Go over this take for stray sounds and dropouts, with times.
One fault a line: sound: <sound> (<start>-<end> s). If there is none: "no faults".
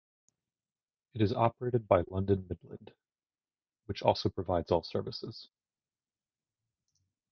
no faults